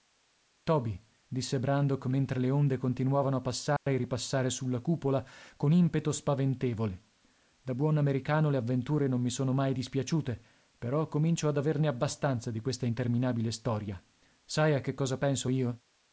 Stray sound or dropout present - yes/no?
yes